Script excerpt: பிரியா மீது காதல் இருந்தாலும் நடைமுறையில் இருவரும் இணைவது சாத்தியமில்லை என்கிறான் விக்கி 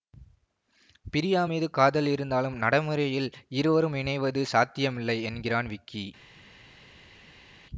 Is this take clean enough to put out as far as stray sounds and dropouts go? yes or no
yes